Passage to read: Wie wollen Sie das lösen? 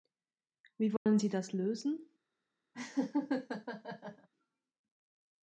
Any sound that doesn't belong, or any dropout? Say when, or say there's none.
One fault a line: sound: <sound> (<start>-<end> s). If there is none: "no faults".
sound: dropout (1.0-1.1 s)
sound: laugh (2.7-4.3 s)